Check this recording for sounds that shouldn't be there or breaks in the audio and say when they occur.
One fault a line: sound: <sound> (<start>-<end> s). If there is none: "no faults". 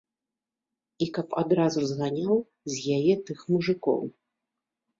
no faults